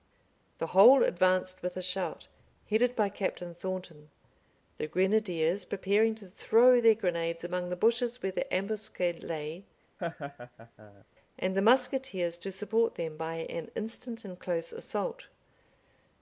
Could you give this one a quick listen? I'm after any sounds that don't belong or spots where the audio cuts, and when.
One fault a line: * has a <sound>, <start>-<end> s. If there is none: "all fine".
* has a laugh, 10.0-11.0 s